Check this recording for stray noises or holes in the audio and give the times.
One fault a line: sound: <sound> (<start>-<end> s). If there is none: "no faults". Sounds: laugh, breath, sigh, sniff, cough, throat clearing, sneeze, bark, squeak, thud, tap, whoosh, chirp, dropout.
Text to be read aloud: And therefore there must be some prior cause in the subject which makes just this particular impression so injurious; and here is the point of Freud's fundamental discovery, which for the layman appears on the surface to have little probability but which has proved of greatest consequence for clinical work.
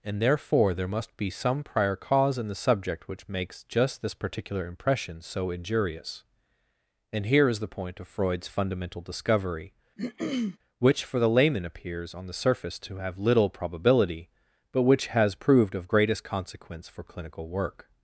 sound: throat clearing (10.0-10.6 s)